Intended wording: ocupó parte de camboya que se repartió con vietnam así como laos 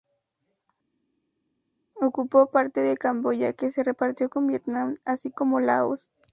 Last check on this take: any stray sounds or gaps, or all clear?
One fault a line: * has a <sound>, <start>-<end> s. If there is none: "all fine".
all fine